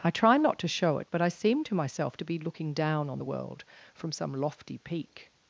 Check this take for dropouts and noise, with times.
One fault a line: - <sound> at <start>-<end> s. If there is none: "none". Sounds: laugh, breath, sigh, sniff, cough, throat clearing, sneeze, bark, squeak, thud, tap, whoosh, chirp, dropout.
none